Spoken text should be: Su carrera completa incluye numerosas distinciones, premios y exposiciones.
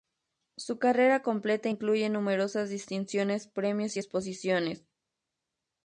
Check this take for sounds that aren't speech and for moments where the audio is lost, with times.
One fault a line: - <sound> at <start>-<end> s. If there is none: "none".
none